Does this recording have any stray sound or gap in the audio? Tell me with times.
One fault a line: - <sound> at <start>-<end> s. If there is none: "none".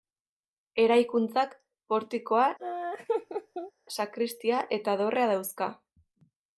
- laugh at 2.6-3.7 s